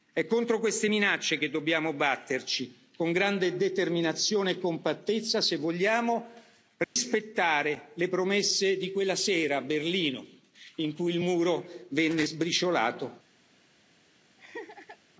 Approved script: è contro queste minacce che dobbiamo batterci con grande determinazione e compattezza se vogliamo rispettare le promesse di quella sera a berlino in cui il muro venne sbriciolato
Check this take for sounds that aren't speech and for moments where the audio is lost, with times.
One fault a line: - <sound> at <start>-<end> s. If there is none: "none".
- dropout at 6.8-7.0 s
- laugh at 14.4-15.0 s